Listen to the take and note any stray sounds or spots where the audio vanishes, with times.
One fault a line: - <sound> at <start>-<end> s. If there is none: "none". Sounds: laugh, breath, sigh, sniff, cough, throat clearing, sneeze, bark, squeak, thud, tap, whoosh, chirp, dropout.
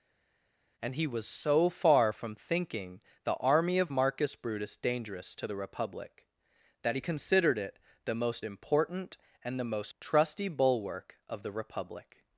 none